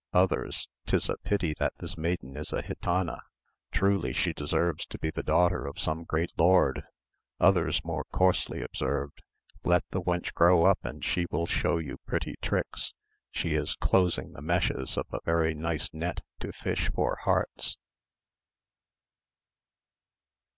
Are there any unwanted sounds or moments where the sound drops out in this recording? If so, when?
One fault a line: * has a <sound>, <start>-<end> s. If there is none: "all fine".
all fine